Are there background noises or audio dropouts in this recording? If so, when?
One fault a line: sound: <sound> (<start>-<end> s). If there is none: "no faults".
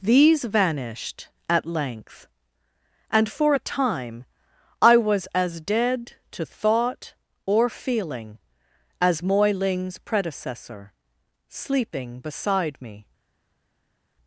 no faults